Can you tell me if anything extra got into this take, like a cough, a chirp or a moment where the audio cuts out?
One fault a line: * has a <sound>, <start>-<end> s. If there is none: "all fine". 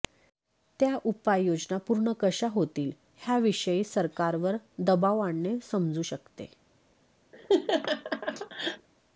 * has a laugh, 7.3-8.9 s